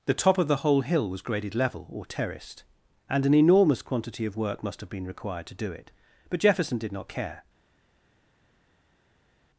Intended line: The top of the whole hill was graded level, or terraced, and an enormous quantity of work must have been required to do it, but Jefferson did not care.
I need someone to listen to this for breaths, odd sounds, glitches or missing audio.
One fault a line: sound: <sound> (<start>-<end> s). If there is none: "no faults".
no faults